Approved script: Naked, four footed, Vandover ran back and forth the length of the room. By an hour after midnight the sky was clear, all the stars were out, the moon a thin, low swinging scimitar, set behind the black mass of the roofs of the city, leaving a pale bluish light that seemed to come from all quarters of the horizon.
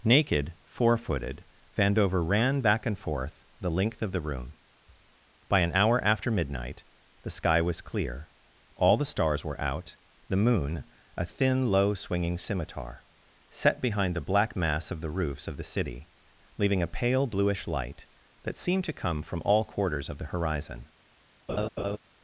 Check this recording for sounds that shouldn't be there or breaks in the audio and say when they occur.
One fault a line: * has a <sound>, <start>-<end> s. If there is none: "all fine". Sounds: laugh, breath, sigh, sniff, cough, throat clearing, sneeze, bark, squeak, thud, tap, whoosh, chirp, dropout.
* has a laugh, 21.5-22.0 s